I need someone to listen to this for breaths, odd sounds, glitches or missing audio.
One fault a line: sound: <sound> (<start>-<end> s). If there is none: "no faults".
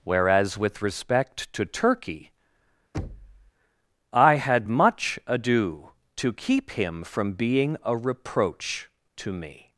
sound: thud (2.9-3.5 s)